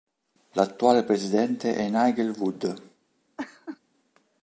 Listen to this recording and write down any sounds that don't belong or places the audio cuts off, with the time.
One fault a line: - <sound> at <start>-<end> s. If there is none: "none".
- laugh at 3.4-3.8 s